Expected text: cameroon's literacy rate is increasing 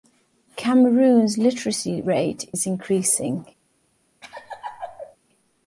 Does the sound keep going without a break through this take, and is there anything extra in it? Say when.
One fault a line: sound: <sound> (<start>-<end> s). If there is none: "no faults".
sound: laugh (4.2-5.2 s)